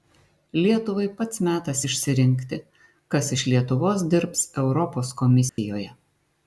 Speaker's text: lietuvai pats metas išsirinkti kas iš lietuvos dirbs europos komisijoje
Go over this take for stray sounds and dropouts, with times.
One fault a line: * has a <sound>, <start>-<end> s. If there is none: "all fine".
* has a dropout, 5.5-5.6 s